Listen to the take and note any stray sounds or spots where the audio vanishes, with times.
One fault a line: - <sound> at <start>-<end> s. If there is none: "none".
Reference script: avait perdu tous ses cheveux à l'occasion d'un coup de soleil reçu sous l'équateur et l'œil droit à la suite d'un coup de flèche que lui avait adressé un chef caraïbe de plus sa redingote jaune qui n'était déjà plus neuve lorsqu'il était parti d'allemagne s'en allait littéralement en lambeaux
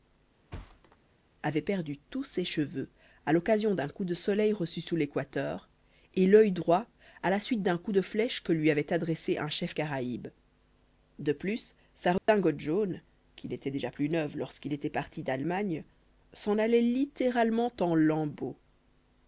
- thud at 0.5-1.0 s
- dropout at 12.2-12.3 s